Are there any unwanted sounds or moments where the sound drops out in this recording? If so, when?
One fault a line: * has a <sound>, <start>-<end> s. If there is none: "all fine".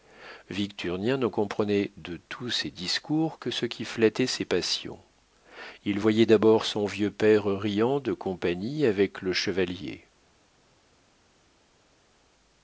all fine